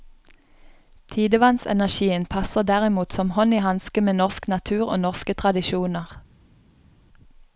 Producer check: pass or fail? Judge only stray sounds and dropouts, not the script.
pass